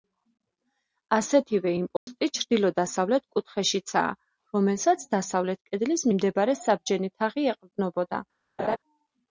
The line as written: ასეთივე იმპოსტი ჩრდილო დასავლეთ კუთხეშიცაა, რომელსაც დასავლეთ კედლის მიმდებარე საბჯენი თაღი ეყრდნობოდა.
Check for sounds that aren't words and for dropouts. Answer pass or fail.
fail